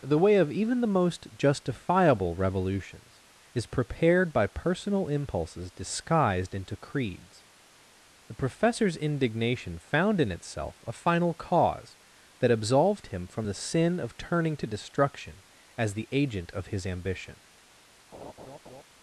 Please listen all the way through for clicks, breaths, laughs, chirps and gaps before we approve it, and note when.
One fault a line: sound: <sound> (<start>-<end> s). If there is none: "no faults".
sound: laugh (18.1-18.8 s)